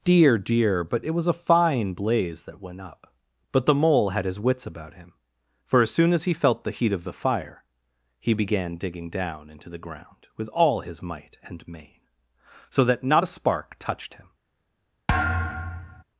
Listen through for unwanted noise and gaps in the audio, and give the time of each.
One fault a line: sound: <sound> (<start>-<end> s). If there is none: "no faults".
sound: thud (15.1-16.0 s)